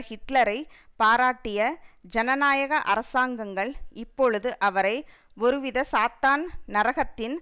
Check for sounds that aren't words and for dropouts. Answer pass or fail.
pass